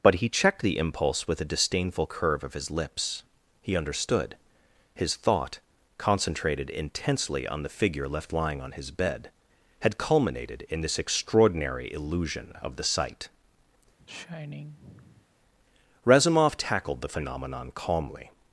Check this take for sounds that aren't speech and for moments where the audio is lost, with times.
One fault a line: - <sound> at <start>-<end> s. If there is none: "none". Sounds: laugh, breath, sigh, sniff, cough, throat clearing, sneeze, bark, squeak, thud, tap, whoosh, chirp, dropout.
- sigh at 14.0-15.3 s